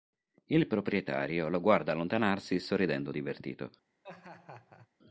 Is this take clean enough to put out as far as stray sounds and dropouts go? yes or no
no